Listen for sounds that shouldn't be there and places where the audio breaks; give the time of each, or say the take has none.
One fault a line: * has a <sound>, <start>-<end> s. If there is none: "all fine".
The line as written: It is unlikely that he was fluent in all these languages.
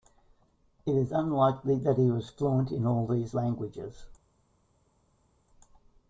all fine